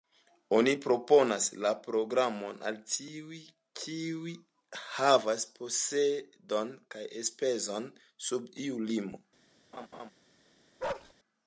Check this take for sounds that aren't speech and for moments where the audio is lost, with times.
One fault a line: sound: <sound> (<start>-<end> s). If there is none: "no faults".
sound: laugh (9.7-10.1 s)
sound: bark (10.8-11.1 s)